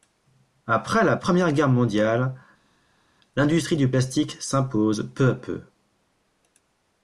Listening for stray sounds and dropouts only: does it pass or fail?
pass